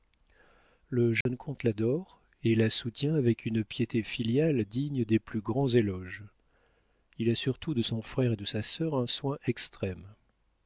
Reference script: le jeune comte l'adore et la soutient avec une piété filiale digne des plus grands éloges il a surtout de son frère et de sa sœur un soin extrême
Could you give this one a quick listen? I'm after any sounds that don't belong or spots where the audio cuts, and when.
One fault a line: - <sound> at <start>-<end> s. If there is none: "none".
- dropout at 1.2-1.3 s